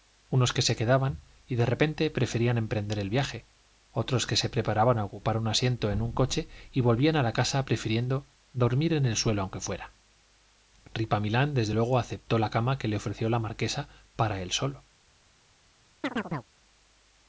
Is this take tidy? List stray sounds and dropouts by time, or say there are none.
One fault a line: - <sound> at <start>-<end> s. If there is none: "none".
- chirp at 16.0-16.5 s